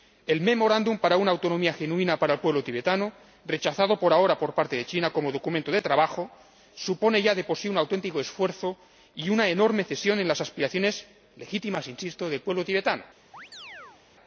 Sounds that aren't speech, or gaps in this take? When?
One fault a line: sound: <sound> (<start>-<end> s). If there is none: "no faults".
sound: chirp (13.3-14.0 s)